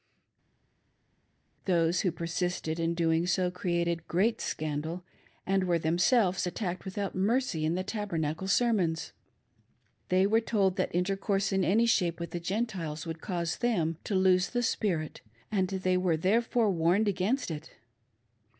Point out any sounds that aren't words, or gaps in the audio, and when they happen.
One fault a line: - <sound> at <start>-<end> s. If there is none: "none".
none